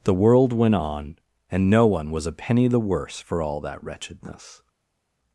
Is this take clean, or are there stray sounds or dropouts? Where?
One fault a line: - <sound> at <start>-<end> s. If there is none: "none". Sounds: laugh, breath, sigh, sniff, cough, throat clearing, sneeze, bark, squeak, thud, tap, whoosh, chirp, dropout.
none